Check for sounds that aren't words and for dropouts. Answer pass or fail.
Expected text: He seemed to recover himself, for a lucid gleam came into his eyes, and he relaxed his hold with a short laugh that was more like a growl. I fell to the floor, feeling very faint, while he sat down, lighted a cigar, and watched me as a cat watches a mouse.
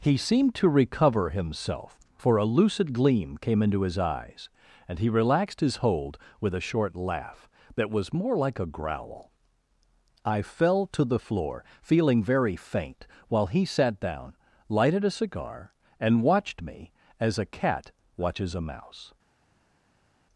pass